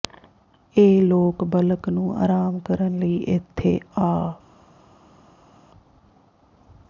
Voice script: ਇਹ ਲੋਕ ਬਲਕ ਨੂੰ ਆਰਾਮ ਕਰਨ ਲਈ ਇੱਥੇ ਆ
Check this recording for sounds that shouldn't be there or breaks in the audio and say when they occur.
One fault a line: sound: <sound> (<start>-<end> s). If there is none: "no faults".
no faults